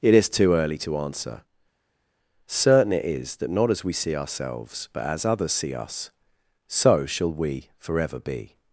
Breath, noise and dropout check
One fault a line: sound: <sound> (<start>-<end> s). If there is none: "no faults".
no faults